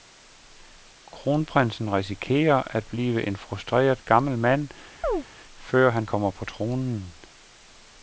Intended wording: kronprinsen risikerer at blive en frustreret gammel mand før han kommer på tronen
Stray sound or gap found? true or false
true